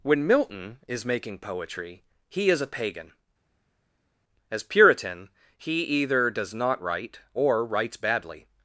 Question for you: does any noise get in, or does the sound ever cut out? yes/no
no